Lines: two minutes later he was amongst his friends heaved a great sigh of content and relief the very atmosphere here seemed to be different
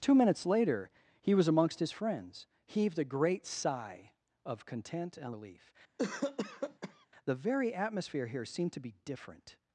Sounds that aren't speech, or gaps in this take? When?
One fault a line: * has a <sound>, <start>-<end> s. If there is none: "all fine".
* has a cough, 6.0-7.1 s